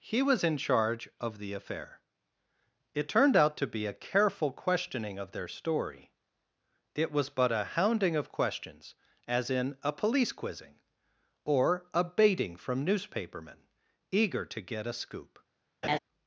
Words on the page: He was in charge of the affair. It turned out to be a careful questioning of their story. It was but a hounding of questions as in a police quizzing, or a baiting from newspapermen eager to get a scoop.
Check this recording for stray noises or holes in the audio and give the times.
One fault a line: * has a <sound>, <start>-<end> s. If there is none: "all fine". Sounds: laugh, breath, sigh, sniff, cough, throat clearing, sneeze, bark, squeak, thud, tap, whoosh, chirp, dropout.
* has a laugh, 15.8-16.0 s